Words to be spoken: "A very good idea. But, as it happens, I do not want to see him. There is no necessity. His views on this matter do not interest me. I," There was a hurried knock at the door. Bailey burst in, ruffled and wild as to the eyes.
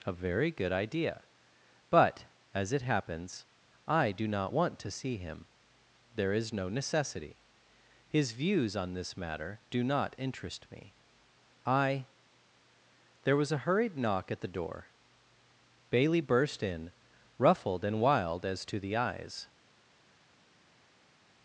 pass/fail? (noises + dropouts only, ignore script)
pass